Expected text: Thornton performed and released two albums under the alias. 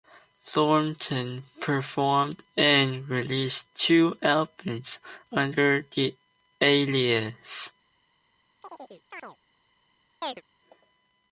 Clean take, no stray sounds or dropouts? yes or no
no